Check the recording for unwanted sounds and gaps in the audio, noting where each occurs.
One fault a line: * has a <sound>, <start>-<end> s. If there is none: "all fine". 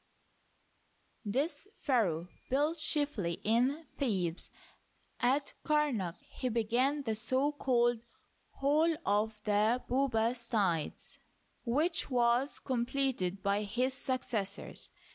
all fine